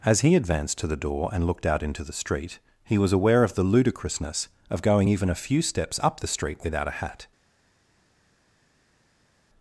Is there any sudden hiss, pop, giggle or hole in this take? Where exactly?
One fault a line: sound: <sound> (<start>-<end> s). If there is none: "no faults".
no faults